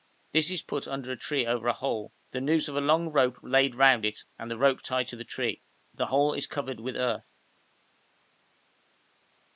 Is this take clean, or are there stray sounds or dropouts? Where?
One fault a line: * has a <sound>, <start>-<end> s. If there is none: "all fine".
all fine